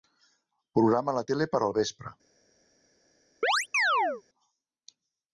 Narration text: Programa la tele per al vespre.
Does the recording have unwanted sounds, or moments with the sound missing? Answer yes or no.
yes